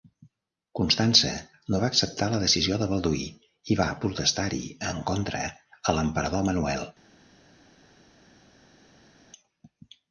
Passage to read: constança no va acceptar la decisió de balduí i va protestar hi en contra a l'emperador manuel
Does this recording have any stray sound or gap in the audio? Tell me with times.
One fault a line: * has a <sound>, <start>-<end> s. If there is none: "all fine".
all fine